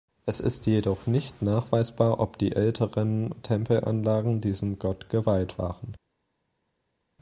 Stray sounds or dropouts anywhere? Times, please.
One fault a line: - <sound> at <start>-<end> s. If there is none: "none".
none